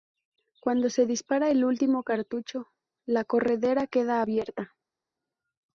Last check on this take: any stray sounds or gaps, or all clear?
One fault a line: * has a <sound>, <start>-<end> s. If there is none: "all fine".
all fine